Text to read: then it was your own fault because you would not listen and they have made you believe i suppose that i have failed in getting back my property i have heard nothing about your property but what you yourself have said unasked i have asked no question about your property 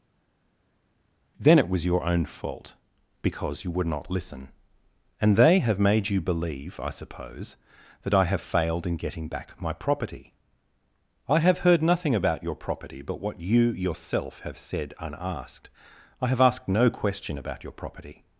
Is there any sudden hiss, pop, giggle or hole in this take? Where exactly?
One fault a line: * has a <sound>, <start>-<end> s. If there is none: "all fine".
all fine